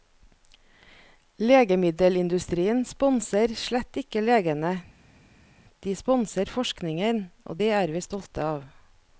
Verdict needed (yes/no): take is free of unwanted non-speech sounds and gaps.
yes